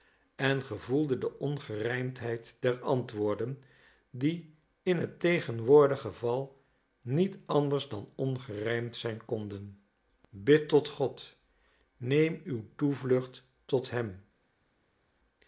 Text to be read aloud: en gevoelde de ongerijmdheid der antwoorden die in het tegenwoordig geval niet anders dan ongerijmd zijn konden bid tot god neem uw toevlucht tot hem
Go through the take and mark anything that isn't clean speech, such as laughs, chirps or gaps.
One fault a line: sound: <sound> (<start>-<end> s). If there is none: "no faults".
no faults